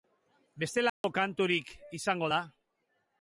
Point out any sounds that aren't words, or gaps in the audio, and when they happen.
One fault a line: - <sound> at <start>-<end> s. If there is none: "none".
- dropout at 0.9-1.0 s